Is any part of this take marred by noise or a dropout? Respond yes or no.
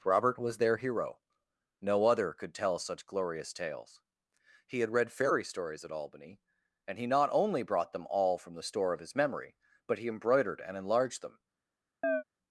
yes